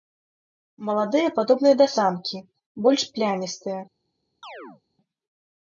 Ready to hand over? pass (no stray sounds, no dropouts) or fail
fail